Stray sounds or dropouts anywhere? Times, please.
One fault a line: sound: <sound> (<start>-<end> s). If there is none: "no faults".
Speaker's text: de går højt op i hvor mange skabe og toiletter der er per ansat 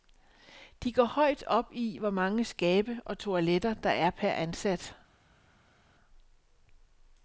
no faults